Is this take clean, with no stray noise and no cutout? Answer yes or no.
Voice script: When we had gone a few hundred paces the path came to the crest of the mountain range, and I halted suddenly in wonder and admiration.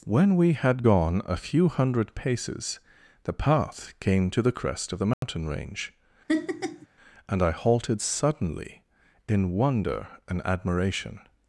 no